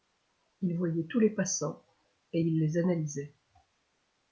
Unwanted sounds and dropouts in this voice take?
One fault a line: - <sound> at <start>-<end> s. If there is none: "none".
none